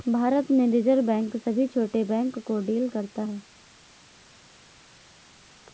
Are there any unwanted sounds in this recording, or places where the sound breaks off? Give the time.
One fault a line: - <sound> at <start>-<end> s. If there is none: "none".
none